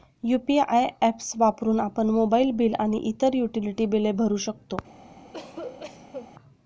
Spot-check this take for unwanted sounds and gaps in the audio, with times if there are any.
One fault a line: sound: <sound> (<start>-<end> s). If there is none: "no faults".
sound: cough (5.2-6.3 s)